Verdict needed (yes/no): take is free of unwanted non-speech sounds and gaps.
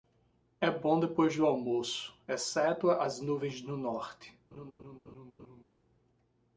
no